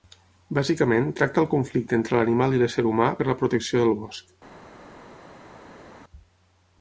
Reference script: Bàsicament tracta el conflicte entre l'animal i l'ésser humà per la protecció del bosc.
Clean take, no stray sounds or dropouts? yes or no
yes